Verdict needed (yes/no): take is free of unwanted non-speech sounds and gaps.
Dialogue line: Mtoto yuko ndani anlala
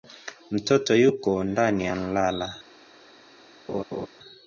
no